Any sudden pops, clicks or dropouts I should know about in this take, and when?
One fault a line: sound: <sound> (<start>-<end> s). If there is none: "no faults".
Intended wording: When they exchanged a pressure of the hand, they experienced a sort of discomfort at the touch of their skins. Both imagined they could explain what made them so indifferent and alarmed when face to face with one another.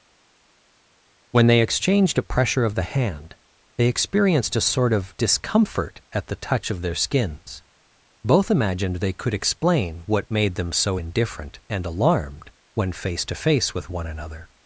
no faults